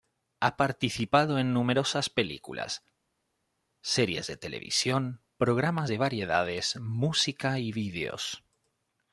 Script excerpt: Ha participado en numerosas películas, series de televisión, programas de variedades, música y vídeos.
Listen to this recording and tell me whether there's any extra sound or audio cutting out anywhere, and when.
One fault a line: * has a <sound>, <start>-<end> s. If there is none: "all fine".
all fine